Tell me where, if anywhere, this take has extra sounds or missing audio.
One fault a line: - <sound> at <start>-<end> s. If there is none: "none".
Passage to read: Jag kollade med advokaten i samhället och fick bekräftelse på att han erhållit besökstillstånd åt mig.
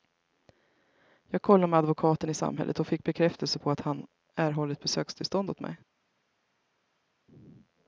none